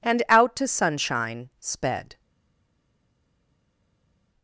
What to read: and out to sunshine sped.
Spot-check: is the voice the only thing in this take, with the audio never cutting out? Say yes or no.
yes